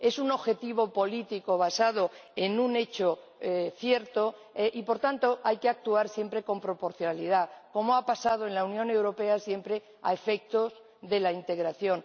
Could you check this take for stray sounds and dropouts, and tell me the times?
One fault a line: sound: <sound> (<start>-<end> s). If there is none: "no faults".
no faults